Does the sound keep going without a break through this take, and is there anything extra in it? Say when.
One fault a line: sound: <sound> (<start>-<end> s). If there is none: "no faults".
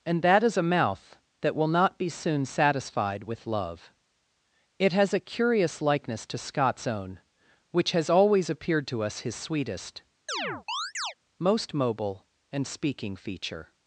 sound: chirp (10.3-11.1 s)